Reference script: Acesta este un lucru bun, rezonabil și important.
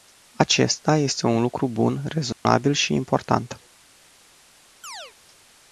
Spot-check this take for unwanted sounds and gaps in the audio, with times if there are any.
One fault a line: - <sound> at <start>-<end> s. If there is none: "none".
- dropout at 2.3-2.5 s
- chirp at 4.8-5.1 s